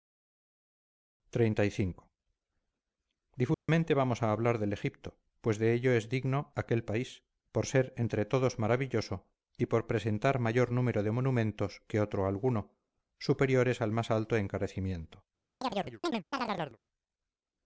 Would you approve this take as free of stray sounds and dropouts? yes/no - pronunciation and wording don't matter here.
no